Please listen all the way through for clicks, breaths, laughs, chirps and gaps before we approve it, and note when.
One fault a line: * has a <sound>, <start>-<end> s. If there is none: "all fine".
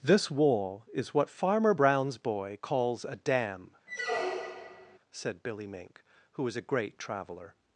* has a squeak, 3.9-5.0 s